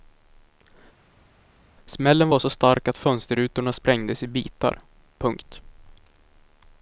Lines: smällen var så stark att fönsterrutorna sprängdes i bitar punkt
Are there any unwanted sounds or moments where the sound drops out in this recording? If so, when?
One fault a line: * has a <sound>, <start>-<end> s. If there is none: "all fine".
all fine